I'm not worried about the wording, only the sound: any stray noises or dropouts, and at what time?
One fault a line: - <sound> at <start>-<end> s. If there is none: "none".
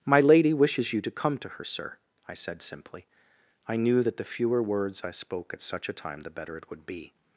none